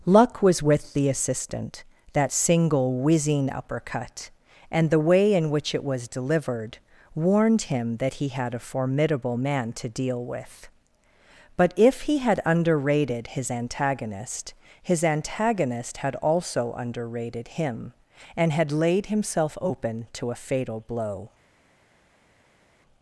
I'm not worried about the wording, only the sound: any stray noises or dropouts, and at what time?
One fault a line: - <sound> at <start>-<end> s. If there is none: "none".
none